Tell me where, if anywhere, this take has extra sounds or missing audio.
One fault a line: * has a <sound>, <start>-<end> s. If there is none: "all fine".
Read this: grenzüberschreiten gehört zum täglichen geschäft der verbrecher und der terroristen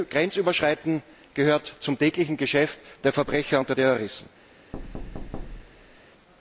* has a thud, 4.7-6.0 s